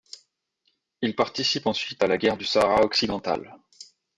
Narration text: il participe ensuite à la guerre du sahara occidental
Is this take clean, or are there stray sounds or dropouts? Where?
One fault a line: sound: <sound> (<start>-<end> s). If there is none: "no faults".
no faults